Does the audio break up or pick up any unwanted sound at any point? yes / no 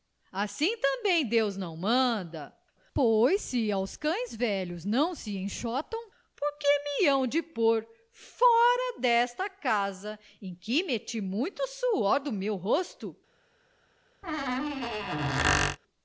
yes